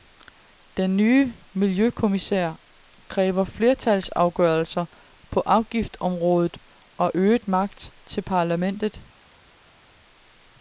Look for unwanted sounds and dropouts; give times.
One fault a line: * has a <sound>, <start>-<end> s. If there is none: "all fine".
all fine